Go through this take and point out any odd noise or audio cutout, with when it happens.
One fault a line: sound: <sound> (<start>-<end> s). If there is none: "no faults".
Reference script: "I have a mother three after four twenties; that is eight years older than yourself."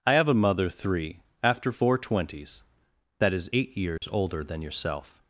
sound: dropout (4.0-4.0 s)